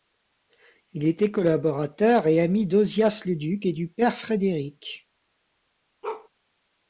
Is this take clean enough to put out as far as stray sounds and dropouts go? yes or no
no